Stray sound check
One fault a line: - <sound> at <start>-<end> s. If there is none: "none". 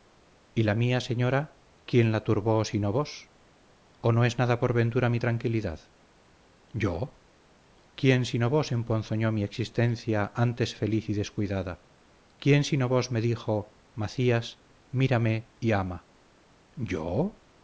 none